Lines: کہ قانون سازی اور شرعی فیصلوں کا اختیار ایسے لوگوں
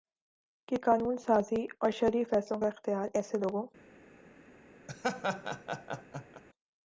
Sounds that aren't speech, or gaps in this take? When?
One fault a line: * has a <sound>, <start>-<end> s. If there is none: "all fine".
* has a laugh, 4.9-6.4 s